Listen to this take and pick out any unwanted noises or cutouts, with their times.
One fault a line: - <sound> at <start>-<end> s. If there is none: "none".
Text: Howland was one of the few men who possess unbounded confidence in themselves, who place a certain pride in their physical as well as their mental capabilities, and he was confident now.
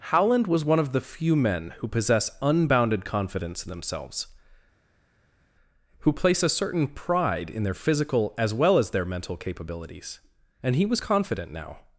none